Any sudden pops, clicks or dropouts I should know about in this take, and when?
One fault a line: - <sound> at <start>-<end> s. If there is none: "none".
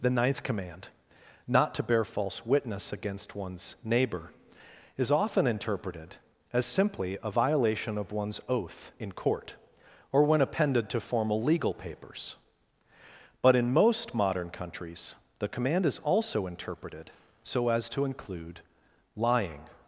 none